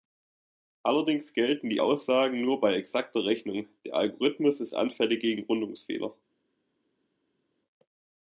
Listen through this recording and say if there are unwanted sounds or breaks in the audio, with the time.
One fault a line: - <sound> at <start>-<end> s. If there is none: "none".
none